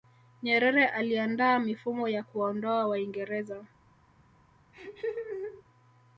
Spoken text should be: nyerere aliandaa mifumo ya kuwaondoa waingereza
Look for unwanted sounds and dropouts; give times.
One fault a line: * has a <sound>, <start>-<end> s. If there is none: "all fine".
* has a laugh, 4.7-5.6 s